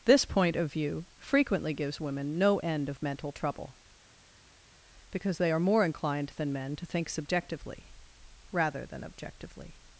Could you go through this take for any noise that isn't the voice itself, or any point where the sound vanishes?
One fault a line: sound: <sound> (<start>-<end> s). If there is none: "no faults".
no faults